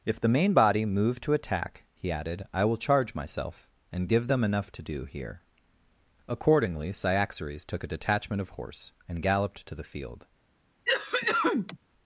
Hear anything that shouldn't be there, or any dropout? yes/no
yes